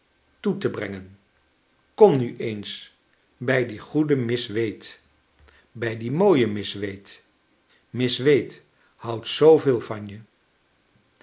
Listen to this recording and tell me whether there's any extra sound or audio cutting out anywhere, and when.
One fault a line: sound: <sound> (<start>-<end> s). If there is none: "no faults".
no faults